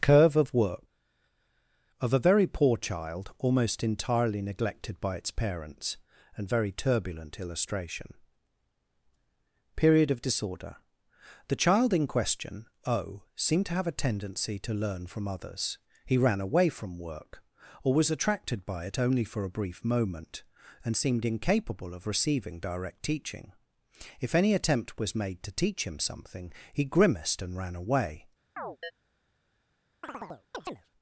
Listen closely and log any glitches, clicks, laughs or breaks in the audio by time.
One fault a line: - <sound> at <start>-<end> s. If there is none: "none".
- chirp at 28.6-28.9 s
- chirp at 30.0-30.9 s